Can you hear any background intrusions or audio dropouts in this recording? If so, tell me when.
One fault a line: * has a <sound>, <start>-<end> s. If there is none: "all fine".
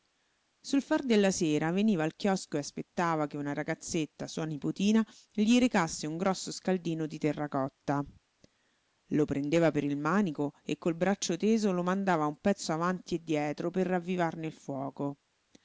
all fine